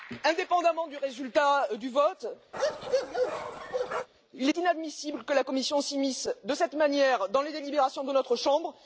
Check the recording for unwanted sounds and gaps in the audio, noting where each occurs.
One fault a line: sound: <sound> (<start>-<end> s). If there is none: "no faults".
sound: bark (2.5-4.1 s)